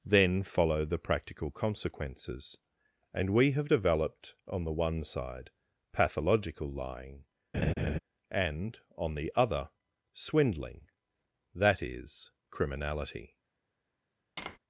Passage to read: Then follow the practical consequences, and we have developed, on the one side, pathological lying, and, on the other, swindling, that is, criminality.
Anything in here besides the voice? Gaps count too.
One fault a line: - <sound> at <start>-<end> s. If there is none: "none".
- laugh at 7.5-8.0 s
- tap at 14.4-14.6 s